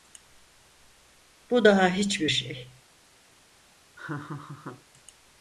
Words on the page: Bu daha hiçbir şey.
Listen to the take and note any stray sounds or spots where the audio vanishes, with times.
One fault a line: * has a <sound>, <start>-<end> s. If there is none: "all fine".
* has a laugh, 4.0-4.8 s